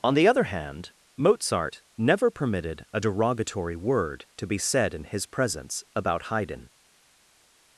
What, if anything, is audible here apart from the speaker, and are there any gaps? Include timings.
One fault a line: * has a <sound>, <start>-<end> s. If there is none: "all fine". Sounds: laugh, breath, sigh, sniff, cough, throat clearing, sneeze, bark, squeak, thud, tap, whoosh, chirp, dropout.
all fine